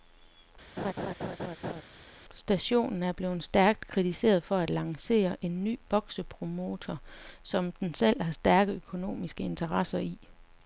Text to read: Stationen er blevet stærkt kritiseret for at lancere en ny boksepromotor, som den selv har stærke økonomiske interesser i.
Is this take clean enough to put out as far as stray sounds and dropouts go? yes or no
no